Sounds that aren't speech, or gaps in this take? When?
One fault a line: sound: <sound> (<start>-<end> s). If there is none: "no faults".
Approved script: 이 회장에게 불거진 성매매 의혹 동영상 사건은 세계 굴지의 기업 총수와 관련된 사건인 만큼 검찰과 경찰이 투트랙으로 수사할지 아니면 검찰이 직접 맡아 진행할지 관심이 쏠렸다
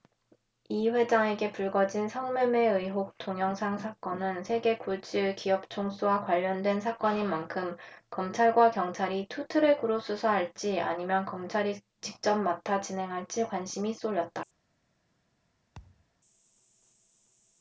sound: thud (15.7-16.1 s)